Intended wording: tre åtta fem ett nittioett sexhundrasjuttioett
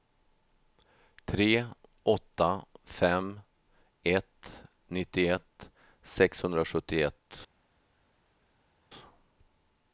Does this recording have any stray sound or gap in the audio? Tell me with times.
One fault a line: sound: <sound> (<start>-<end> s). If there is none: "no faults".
no faults